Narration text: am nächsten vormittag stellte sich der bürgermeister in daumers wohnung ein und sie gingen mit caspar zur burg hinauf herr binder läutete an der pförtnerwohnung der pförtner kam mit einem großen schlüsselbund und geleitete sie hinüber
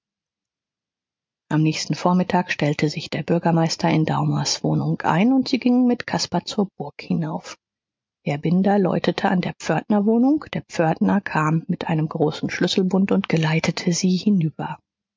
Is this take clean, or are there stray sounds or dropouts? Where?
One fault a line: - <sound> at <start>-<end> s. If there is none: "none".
none